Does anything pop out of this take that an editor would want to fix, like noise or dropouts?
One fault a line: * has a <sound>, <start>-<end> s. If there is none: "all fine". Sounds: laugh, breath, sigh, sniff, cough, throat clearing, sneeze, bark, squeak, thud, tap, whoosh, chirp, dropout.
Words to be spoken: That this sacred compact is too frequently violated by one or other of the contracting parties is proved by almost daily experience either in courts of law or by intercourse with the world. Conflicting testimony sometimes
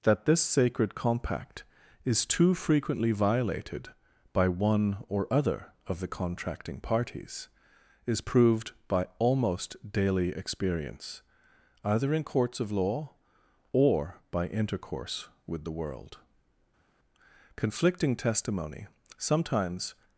all fine